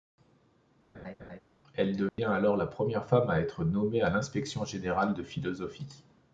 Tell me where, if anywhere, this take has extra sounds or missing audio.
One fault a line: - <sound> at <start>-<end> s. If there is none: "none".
- laugh at 0.9-1.4 s
- dropout at 2.1-2.2 s